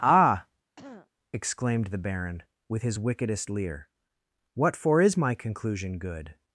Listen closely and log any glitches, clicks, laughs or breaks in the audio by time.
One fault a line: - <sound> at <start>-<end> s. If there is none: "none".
- throat clearing at 0.8-1.1 s